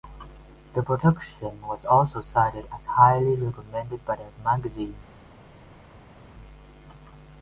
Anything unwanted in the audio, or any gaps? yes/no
no